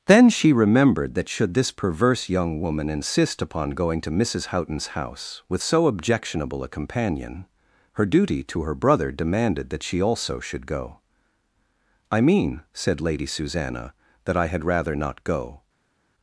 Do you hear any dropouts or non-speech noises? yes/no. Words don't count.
no